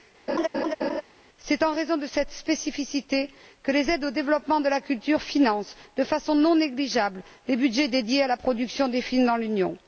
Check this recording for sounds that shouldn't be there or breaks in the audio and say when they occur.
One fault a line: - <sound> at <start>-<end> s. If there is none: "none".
- laugh at 0.3-1.0 s